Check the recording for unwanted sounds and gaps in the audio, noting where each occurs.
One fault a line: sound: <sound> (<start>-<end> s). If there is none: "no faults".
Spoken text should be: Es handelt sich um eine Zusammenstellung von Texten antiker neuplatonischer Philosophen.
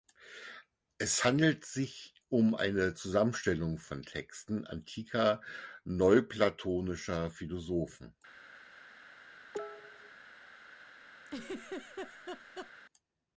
sound: cough (9.5-10.1 s)
sound: laugh (11.3-12.7 s)